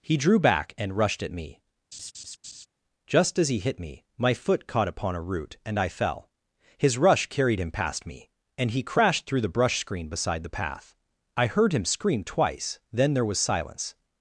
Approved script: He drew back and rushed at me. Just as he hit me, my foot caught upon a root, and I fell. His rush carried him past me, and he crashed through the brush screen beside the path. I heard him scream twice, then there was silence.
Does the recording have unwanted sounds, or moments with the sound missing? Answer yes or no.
yes